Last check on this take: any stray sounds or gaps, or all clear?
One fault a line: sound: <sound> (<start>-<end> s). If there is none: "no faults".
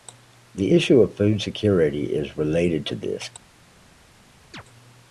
sound: chirp (4.5-4.6 s)